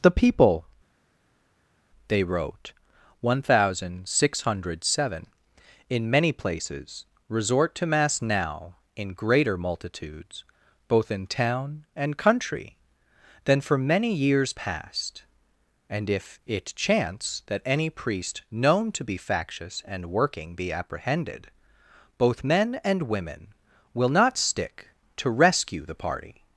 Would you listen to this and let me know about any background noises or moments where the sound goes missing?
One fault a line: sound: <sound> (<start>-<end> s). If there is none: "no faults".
no faults